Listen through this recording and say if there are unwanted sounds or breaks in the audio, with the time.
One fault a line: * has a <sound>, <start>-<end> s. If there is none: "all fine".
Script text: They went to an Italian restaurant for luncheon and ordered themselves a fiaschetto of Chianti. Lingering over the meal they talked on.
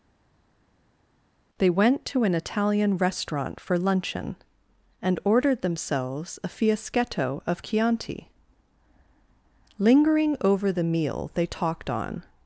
all fine